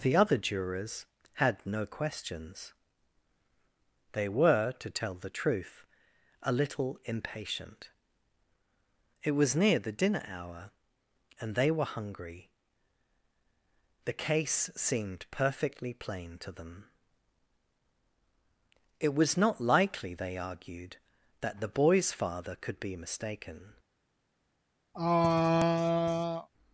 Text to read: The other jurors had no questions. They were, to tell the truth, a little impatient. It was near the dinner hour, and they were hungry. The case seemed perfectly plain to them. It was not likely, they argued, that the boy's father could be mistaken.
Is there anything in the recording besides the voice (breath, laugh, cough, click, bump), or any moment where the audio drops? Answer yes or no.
yes